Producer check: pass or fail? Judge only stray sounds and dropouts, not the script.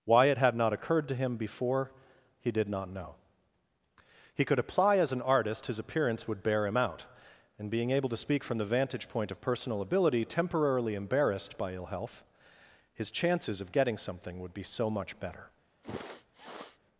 fail